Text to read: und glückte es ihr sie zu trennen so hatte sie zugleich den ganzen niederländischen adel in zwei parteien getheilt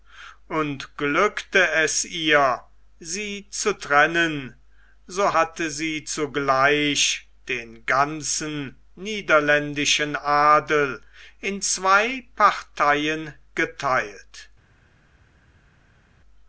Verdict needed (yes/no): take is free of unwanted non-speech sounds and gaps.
yes